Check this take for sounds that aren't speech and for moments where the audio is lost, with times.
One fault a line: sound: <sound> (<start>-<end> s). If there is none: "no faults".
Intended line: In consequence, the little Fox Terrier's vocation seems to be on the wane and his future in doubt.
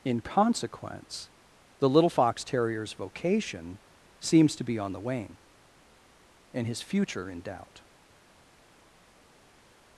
no faults